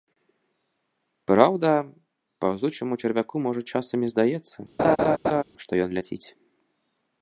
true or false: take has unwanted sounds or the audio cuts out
true